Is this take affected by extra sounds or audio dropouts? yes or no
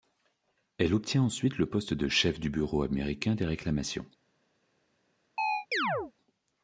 yes